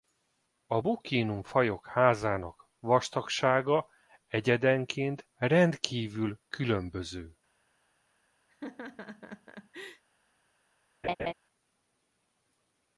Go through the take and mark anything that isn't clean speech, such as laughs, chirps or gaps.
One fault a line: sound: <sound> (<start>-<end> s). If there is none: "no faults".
sound: laugh (8.5-10.0 s)
sound: laugh (11.0-11.3 s)